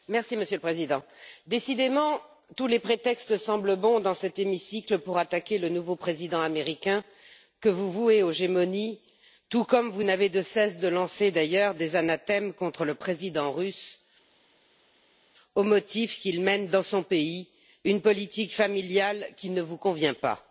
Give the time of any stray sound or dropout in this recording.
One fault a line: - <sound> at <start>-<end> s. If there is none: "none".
none